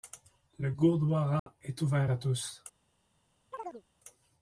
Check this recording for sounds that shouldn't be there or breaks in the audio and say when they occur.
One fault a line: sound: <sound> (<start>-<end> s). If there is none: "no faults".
sound: dropout (1.4-1.5 s)
sound: chirp (3.5-3.8 s)